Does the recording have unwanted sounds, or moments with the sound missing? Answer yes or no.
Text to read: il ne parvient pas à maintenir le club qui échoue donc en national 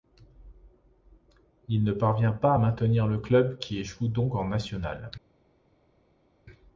no